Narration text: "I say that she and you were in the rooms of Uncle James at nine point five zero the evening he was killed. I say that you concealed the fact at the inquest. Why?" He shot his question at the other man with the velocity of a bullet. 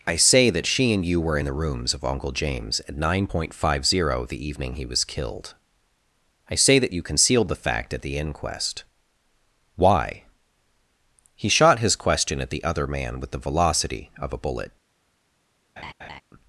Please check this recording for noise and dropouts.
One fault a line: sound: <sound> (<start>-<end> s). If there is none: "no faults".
sound: laugh (15.8-16.2 s)